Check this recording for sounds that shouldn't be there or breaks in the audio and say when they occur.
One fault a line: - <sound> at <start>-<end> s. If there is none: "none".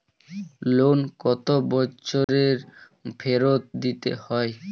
- dropout at 2.2-2.3 s